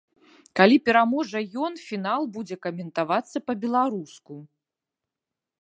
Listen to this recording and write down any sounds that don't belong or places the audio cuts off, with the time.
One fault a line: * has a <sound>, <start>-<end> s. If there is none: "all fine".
all fine